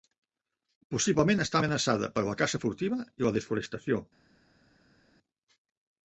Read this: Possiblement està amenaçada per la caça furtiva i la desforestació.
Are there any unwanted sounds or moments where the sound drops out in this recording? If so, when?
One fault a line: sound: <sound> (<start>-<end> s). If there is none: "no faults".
no faults